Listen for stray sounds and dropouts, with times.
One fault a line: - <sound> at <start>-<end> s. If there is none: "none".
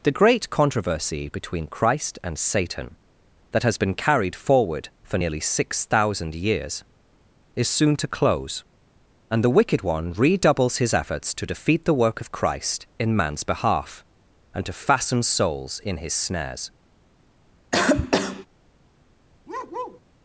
- cough at 17.7-18.5 s
- bark at 19.5-20.0 s